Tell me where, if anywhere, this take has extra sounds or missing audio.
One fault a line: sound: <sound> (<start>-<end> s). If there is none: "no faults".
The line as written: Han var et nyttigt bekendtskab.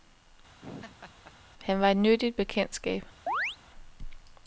sound: laugh (0.6-1.3 s)
sound: chirp (3.3-3.6 s)